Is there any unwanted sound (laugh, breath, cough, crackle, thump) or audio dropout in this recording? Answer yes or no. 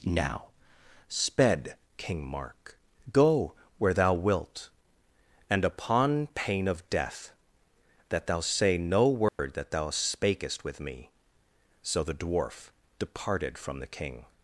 yes